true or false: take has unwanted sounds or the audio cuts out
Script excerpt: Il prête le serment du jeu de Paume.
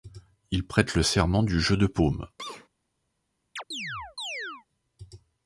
true